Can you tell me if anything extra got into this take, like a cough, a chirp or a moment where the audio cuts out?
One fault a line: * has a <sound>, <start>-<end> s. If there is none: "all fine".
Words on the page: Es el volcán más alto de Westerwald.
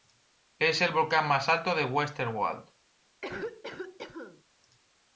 * has a cough, 3.2-4.4 s